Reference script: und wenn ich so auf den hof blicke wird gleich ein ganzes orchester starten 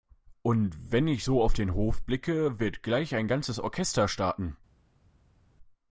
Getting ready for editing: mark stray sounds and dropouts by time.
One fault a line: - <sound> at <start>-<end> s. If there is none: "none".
none